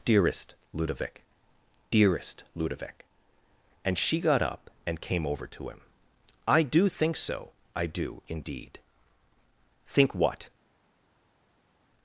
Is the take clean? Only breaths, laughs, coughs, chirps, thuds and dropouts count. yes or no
yes